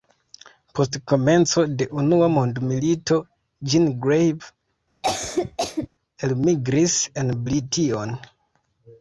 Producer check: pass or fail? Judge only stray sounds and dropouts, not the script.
fail